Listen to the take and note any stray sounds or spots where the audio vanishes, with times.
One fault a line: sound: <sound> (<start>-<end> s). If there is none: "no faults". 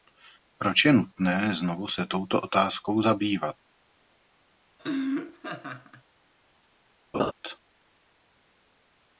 sound: laugh (4.8-6.0 s)
sound: laugh (7.1-7.3 s)